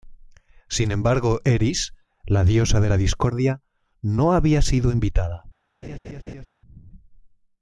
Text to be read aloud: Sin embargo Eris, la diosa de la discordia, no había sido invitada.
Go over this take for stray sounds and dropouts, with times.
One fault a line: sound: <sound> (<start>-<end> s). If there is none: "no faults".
sound: laugh (5.8-6.5 s)